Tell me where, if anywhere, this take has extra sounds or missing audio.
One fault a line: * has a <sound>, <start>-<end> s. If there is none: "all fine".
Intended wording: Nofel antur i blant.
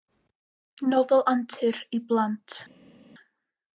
all fine